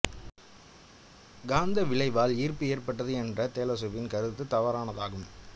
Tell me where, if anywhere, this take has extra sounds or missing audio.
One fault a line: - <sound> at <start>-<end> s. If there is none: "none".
none